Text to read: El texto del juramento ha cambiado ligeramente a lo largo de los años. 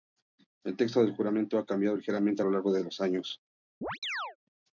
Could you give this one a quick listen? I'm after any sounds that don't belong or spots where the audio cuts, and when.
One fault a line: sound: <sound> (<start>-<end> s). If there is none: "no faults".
sound: chirp (3.8-4.4 s)